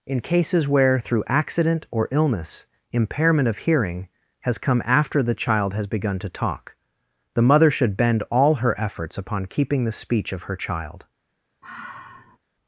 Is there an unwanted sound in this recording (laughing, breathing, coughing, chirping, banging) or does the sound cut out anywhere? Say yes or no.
yes